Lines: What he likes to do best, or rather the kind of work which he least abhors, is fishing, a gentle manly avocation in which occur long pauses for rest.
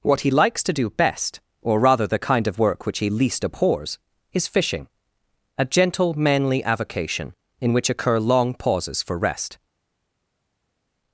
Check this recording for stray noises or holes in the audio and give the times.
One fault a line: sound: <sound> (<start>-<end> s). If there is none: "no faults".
no faults